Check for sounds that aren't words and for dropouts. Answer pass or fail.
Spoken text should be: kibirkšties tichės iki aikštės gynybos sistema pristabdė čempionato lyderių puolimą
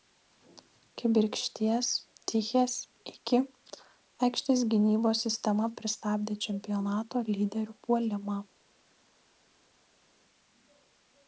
pass